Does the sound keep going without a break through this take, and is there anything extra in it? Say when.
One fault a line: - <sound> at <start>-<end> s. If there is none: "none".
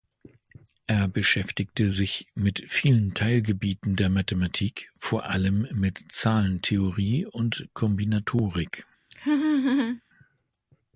- laugh at 9.1-10.0 s